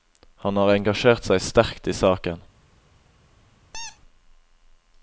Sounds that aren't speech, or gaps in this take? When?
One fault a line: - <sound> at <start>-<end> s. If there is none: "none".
- squeak at 3.7-4.0 s